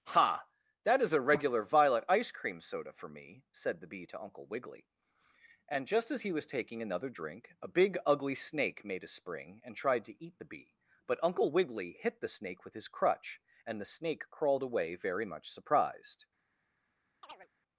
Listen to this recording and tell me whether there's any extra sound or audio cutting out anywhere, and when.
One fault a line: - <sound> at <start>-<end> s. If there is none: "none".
- chirp at 17.2-17.5 s